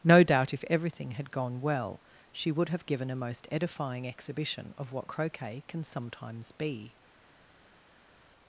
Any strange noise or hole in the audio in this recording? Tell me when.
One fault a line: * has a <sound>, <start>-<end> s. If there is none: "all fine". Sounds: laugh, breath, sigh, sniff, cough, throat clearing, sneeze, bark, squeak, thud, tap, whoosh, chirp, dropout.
all fine